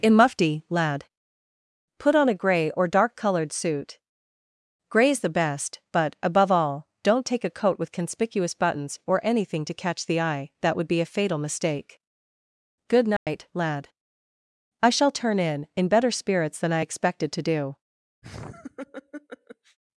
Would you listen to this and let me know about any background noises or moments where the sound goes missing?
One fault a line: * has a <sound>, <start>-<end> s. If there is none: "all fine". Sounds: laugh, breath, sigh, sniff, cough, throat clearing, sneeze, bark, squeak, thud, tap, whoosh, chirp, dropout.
* has a dropout, 13.2-13.3 s
* has a laugh, 18.2-19.8 s